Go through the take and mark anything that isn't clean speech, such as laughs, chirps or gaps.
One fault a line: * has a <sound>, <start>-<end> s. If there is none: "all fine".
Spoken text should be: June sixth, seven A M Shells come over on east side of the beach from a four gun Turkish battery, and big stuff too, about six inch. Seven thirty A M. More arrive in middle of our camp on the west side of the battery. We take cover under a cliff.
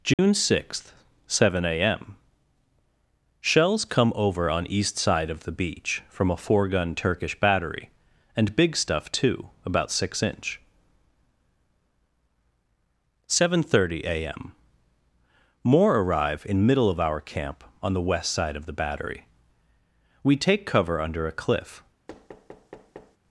* has a dropout, 0.1-0.2 s
* has a thud, 22.1-23.2 s